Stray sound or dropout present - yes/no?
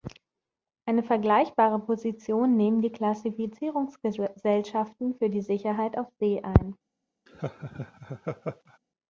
yes